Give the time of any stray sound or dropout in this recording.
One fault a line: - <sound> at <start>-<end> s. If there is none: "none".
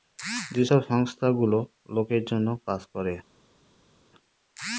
none